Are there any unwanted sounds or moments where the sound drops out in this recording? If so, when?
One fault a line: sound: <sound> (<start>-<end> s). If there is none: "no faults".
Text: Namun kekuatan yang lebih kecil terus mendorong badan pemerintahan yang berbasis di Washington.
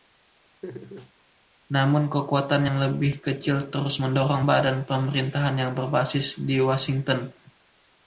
sound: laugh (0.6-1.1 s)